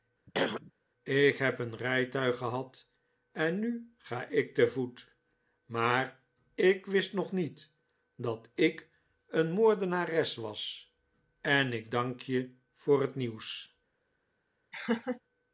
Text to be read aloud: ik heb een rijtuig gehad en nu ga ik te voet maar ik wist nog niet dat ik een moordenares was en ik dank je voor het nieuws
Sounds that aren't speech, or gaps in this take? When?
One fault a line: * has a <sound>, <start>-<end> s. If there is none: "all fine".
* has a throat clearing, 0.3-0.7 s
* has a laugh, 14.7-15.2 s